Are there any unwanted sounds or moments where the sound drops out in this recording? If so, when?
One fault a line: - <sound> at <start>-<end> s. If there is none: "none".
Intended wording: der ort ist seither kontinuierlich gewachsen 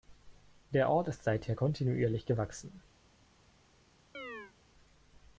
- chirp at 4.1-4.5 s